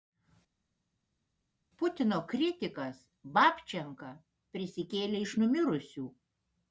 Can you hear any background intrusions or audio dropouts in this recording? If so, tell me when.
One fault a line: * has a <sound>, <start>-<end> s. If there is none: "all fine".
all fine